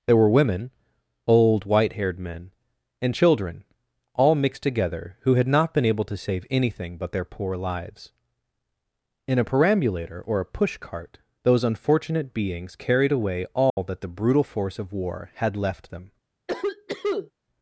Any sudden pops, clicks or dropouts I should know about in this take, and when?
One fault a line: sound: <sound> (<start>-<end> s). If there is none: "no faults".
sound: dropout (13.7-13.8 s)
sound: cough (16.5-17.3 s)